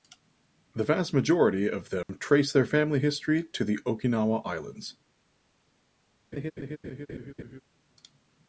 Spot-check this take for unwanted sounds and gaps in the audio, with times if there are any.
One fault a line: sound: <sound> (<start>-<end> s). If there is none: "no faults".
sound: dropout (2.0-2.1 s)
sound: laugh (6.3-7.6 s)